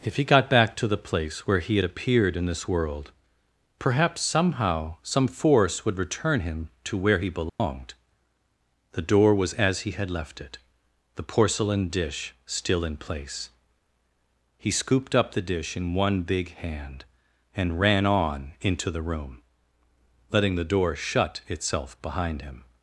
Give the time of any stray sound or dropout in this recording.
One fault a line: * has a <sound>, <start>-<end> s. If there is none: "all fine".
* has a dropout, 7.5-7.6 s